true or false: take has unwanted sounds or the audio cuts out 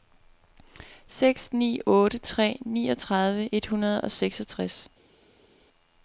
false